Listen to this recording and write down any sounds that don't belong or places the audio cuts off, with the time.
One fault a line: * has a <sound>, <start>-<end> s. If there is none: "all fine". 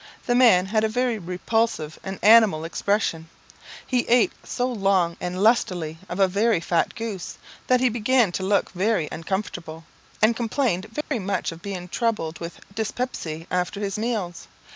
* has a dropout, 11.0-11.1 s